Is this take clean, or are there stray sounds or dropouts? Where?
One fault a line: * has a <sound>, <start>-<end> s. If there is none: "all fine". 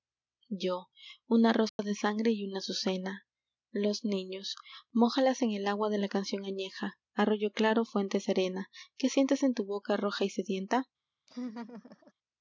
* has a dropout, 1.7-1.8 s
* has a laugh, 11.3-12.1 s